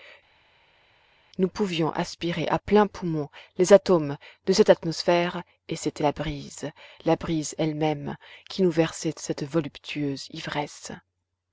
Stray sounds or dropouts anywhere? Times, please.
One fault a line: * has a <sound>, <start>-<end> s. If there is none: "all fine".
all fine